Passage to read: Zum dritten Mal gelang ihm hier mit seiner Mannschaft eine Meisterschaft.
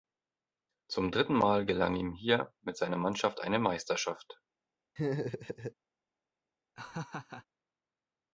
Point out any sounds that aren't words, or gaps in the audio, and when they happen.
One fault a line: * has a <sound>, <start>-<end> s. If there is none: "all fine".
* has a laugh, 5.0-5.7 s
* has a laugh, 6.8-7.5 s